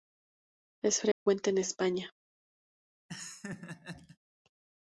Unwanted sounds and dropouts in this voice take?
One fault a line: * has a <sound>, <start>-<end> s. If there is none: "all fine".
* has a dropout, 1.1-1.3 s
* has a laugh, 3.1-4.2 s